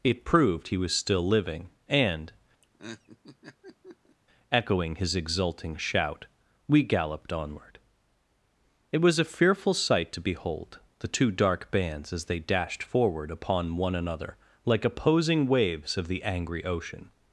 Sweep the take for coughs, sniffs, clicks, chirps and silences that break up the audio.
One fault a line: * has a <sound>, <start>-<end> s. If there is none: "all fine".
* has a laugh, 2.6-4.2 s